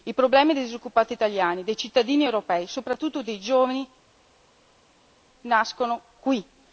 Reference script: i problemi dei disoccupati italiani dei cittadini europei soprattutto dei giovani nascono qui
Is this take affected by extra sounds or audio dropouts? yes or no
no